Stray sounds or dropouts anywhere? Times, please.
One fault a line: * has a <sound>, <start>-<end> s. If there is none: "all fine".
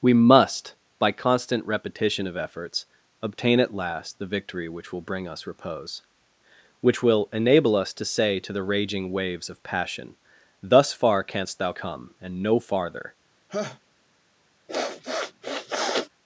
* has a laugh, 13.5-13.8 s
* has a sniff, 14.7-16.1 s